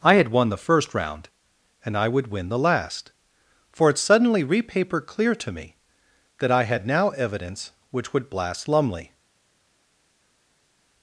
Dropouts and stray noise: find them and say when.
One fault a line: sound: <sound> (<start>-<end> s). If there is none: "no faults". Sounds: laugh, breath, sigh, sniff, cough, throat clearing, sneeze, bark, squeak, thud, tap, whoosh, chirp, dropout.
no faults